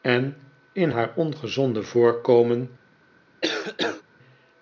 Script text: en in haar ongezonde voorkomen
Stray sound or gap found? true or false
true